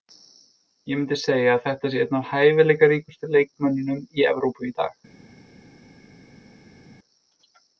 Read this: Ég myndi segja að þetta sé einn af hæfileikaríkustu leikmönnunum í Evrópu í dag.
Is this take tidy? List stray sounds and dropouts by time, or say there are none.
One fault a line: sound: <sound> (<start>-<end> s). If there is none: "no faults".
no faults